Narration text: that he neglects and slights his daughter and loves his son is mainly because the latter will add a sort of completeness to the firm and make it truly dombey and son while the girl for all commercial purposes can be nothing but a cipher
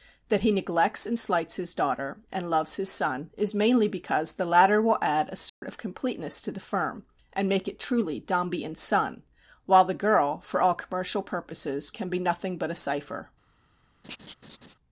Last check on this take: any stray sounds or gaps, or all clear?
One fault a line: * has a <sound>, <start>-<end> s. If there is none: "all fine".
* has a dropout, 5.5-5.6 s
* has a laugh, 14.0-14.7 s